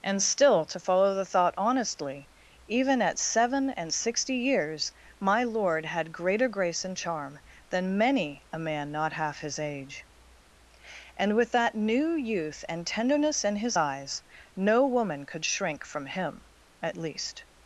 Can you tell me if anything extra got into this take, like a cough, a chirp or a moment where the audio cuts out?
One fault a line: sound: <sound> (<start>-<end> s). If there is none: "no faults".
no faults